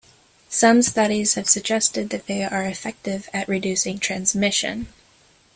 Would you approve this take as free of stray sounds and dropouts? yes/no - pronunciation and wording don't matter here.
yes